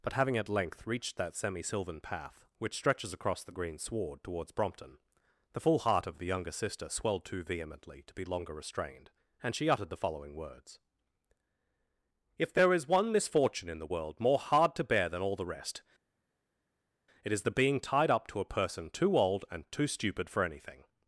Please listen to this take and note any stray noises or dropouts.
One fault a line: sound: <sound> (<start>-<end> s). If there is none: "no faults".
no faults